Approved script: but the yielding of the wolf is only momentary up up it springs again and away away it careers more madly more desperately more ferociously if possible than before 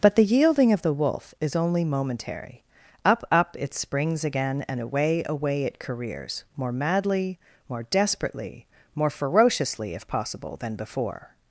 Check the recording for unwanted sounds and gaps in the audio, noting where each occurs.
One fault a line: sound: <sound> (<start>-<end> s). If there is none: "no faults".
no faults